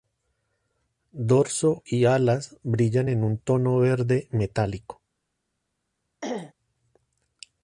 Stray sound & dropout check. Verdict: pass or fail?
fail